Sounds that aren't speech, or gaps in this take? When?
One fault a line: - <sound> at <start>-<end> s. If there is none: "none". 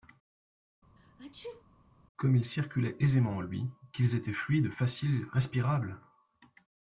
- sneeze at 1.0-1.7 s